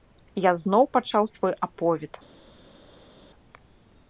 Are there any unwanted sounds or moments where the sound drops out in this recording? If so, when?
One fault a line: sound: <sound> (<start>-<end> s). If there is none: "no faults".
no faults